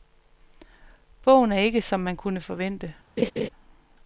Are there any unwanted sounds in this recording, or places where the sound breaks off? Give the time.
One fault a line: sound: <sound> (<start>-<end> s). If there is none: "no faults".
sound: laugh (3.2-3.5 s)